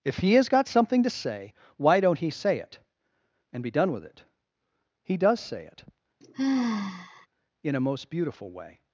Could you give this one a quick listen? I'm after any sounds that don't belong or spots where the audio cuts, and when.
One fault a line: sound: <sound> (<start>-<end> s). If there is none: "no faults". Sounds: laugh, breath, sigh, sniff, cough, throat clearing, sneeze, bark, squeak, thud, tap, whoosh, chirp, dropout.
sound: sigh (6.2-7.3 s)